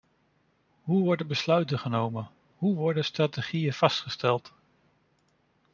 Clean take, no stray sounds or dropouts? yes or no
yes